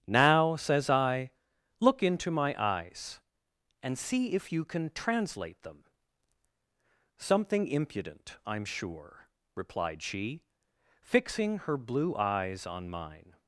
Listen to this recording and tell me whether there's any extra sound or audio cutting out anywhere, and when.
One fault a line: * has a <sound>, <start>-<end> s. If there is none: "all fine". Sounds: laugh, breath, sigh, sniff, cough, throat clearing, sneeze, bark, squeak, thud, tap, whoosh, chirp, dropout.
all fine